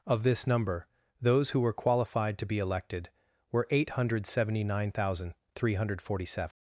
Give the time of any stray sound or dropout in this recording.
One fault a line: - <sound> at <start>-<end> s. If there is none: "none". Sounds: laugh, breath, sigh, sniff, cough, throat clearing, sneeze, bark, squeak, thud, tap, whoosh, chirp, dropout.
none